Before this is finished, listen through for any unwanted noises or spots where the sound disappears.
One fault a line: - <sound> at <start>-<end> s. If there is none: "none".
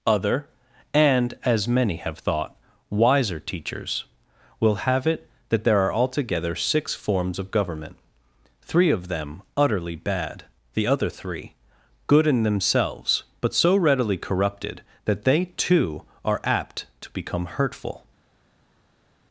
none